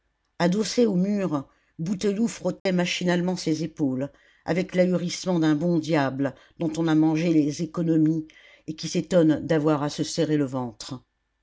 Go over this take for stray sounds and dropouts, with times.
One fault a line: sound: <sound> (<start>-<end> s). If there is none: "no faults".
sound: dropout (2.6-2.7 s)